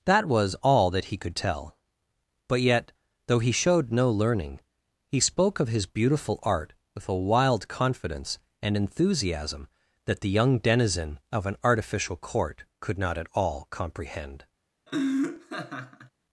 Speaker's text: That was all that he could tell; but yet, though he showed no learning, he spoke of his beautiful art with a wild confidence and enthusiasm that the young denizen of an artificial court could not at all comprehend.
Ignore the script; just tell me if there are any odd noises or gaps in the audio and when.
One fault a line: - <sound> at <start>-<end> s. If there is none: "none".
- laugh at 14.9-16.1 s